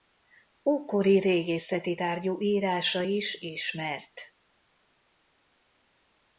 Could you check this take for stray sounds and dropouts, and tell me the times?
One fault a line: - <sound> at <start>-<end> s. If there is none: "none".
none